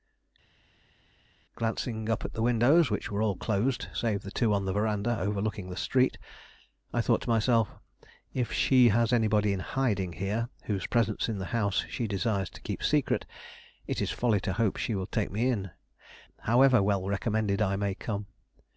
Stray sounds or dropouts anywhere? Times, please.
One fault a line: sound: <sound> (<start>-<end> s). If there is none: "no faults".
no faults